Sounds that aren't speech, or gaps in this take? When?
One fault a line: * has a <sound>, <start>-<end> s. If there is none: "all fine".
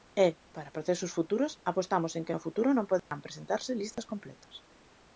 * has a dropout, 3.0-3.1 s
* has a dropout, 3.9-4.0 s